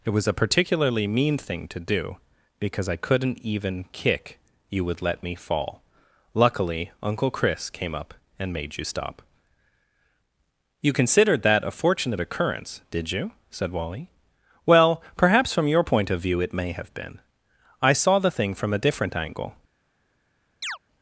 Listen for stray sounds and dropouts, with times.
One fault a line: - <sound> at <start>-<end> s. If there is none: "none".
- chirp at 20.6-20.8 s